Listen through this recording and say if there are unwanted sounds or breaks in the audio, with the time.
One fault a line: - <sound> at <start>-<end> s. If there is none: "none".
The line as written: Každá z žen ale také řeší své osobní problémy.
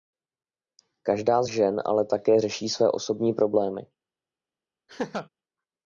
- laugh at 4.9-5.3 s